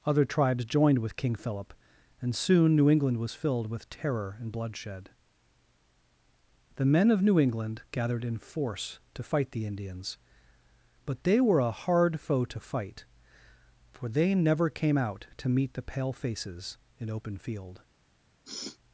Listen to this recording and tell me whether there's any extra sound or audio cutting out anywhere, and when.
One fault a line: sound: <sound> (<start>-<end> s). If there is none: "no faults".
sound: sniff (18.4-18.8 s)